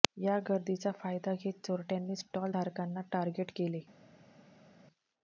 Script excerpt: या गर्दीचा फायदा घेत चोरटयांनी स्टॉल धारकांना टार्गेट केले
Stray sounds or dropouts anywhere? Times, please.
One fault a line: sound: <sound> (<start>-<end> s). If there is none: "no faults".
no faults